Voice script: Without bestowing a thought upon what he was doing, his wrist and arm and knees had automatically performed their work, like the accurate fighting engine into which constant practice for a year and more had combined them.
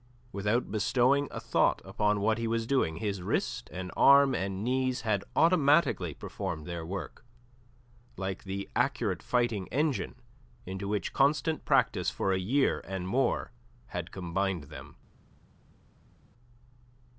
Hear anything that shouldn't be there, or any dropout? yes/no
no